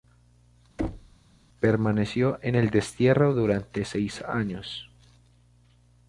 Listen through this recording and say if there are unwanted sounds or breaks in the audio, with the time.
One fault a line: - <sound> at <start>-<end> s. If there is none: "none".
- thud at 0.8-1.2 s